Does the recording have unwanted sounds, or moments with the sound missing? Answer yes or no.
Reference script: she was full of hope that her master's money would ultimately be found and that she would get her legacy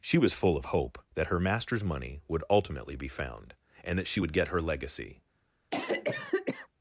yes